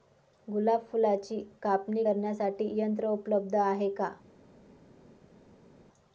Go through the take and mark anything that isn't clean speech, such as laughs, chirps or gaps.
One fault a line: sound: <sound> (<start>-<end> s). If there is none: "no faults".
no faults